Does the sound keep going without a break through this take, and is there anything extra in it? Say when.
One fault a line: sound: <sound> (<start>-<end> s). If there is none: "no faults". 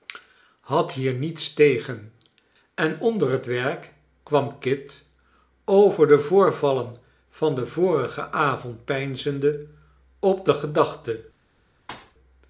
sound: thud (11.9-12.1 s)